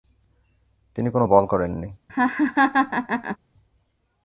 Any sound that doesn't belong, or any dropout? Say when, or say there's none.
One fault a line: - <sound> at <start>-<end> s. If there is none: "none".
- laugh at 2.1-3.4 s